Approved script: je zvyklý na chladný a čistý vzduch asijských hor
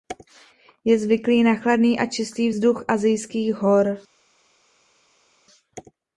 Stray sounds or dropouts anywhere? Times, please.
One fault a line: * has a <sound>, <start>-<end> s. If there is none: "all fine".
all fine